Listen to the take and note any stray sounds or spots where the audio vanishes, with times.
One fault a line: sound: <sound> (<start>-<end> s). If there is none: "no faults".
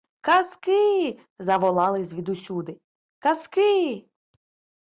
no faults